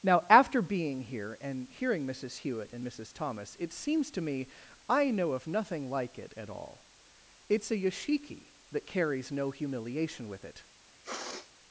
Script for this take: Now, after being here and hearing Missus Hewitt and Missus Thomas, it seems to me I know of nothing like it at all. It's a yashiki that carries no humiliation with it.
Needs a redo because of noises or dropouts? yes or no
yes